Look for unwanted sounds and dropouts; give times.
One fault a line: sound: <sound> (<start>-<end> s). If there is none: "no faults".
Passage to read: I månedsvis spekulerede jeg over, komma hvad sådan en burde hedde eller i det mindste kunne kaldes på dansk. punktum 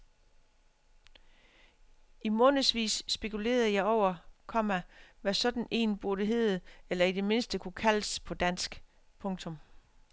no faults